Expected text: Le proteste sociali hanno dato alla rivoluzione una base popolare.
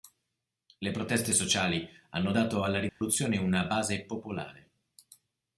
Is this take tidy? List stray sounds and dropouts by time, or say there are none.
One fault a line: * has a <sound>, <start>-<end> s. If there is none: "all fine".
* has a dropout, 2.9-3.0 s